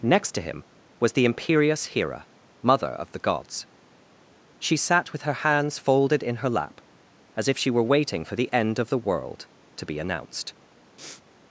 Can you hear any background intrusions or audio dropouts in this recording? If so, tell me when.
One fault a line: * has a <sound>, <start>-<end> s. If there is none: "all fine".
* has a sniff, 11.0-11.2 s